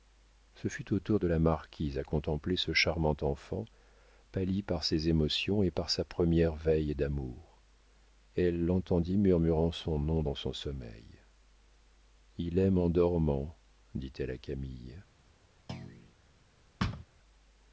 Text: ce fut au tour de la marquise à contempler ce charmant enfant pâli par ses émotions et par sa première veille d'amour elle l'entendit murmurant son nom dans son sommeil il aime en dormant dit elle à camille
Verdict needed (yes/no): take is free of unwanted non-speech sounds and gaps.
no